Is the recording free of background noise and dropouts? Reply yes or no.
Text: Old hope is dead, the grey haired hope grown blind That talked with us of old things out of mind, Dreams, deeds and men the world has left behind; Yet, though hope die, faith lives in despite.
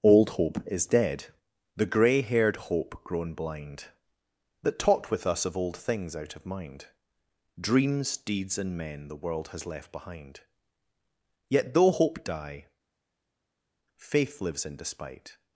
yes